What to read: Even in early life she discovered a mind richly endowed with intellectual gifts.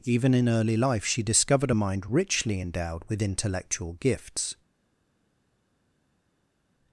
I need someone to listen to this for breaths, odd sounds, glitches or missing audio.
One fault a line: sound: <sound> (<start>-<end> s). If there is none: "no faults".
no faults